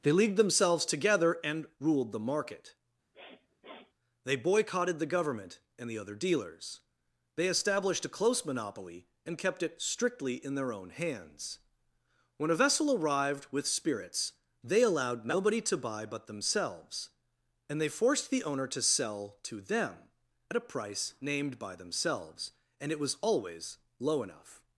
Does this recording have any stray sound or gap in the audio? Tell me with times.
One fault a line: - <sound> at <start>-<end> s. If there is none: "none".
- sniff at 3.1-3.9 s